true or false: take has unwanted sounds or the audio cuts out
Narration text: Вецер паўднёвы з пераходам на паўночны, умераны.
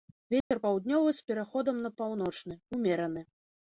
true